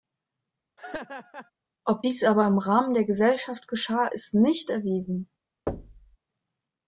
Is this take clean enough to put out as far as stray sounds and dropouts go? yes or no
no